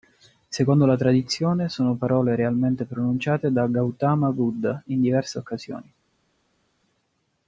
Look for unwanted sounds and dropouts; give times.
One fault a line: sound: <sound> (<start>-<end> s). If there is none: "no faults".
no faults